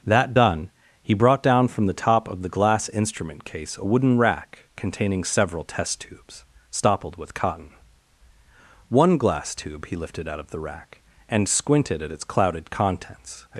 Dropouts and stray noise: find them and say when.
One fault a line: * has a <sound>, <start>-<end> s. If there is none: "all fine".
all fine